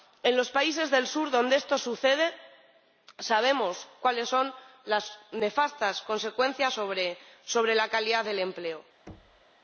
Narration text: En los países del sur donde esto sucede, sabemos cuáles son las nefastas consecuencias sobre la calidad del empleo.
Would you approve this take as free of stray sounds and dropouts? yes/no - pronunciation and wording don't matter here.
no